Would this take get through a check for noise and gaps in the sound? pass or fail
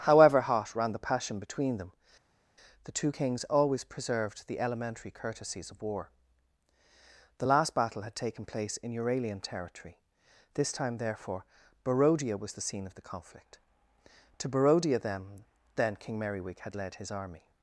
pass